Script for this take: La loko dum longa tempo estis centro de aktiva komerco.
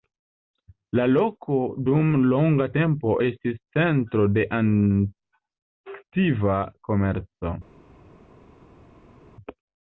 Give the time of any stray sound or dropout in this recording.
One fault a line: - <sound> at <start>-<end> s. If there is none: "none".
none